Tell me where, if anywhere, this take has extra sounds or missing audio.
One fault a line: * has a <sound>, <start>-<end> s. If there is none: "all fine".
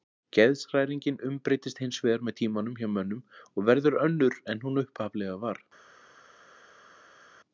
all fine